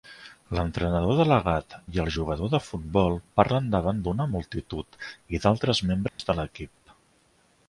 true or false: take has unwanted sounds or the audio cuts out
true